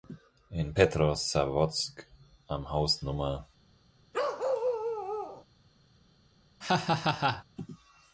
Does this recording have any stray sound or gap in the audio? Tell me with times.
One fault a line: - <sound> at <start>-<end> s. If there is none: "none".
- bark at 4.1-5.5 s
- laugh at 6.6-7.4 s